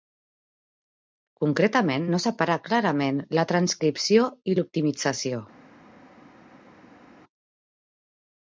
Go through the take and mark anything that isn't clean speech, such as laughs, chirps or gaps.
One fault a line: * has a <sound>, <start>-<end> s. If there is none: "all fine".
all fine